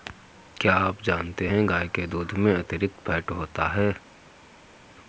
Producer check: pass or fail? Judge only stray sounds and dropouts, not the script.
pass